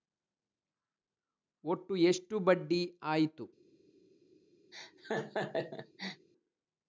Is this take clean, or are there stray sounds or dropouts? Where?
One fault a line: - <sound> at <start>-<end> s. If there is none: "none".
- laugh at 4.7-6.3 s